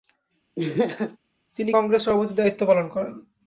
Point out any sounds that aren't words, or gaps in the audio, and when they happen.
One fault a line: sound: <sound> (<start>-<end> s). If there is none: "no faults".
sound: laugh (0.6-1.2 s)